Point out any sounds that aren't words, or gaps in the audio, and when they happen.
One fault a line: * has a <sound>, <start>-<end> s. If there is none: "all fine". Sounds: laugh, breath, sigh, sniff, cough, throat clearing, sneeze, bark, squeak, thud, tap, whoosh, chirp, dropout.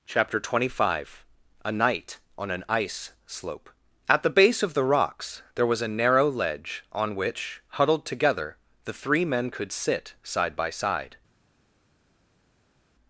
all fine